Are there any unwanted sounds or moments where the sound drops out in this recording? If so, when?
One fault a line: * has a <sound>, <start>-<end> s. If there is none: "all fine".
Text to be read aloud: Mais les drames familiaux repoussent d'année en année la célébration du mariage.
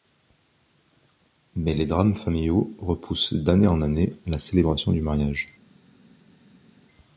all fine